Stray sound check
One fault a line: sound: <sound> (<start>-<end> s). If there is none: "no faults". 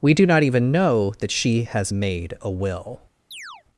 sound: chirp (3.3-3.6 s)